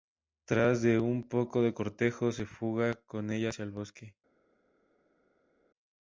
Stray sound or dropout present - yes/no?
no